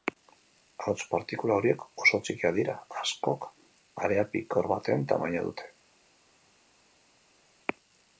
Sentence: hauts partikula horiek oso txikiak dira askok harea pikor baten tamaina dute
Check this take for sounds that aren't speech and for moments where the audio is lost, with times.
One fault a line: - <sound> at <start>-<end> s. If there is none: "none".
none